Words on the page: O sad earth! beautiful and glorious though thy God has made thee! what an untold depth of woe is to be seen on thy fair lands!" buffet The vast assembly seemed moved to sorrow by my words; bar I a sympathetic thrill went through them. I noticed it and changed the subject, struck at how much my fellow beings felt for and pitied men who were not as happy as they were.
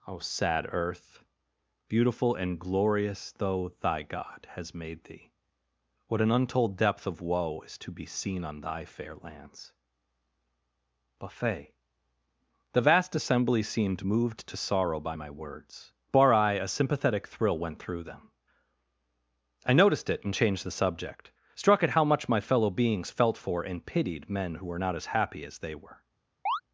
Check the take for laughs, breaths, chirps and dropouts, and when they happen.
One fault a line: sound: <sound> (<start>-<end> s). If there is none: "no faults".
sound: chirp (26.5-26.6 s)